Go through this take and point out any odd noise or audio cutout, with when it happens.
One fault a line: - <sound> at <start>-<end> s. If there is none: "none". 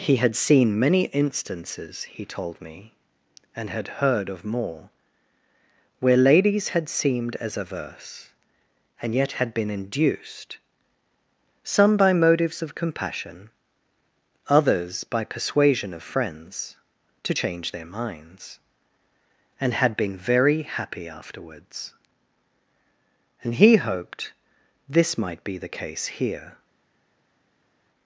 none